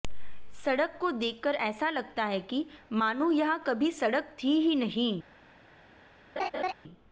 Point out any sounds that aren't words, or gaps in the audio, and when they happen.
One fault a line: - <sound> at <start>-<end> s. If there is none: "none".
- laugh at 6.4-6.7 s